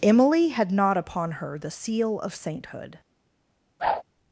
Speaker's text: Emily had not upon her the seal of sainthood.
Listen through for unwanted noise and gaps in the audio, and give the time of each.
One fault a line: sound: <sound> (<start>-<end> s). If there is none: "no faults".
sound: whoosh (3.8-4.0 s)